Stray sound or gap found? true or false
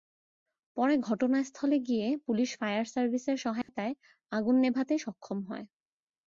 true